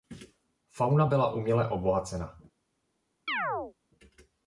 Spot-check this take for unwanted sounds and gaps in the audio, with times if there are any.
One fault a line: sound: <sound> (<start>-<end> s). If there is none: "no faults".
sound: chirp (3.3-3.7 s)